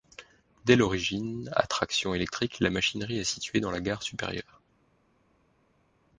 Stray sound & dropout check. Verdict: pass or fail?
pass